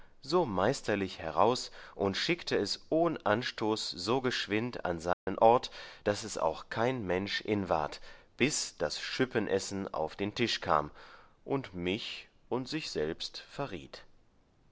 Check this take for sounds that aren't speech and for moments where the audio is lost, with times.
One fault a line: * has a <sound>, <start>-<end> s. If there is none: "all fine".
* has a dropout, 5.1-5.3 s